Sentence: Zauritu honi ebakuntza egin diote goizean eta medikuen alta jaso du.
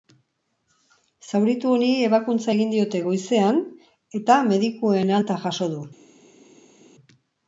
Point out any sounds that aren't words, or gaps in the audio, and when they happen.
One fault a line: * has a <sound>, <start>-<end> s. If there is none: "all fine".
all fine